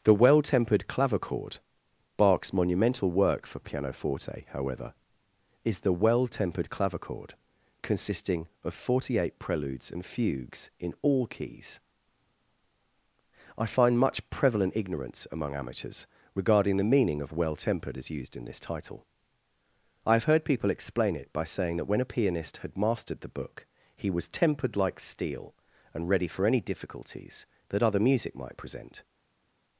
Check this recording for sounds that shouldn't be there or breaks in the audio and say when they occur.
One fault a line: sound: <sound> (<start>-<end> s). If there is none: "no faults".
no faults